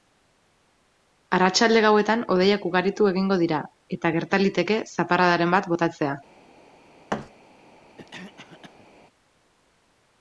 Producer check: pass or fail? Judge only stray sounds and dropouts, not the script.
fail